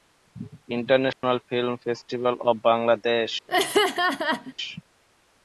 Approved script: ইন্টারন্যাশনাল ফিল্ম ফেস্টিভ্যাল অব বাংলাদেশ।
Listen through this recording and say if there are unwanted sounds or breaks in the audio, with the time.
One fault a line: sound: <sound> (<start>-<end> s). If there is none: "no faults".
sound: dropout (1.1-1.2 s)
sound: laugh (3.5-4.5 s)